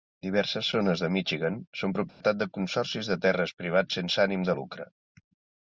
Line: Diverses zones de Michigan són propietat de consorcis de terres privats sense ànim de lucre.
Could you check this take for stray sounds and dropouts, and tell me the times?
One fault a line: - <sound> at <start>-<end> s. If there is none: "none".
- dropout at 2.1-2.2 s